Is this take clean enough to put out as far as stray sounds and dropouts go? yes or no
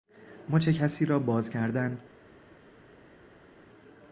yes